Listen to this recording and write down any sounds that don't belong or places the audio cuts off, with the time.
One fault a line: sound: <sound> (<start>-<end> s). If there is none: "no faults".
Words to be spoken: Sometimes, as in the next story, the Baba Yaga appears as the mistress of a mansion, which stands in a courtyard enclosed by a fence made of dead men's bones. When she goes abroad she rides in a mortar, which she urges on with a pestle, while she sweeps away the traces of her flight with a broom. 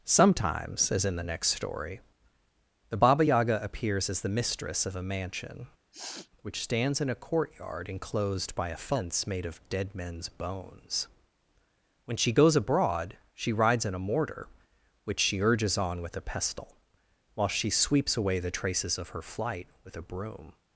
sound: sniff (5.9-6.3 s)